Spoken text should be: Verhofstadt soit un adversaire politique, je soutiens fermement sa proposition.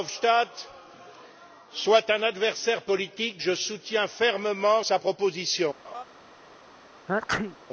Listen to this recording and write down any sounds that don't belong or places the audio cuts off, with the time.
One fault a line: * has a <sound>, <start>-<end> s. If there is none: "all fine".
* has a laugh, 5.8-6.0 s
* has a sneeze, 7.1-7.6 s